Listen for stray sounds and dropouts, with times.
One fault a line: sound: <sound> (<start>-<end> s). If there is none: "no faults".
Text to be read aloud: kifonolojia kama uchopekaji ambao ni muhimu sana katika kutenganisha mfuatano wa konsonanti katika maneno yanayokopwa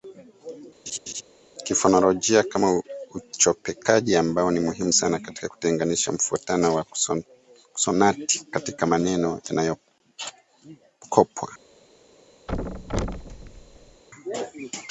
sound: laugh (0.9-1.2 s)
sound: thud (12.5-14.0 s)